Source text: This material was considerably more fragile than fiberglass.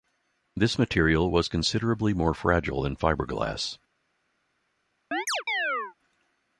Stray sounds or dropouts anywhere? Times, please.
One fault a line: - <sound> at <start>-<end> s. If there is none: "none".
- chirp at 5.1-5.9 s